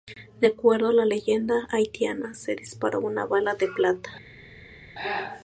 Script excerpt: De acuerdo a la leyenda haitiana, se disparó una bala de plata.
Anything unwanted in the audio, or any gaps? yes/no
no